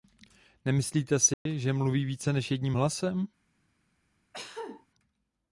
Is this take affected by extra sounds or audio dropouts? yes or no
yes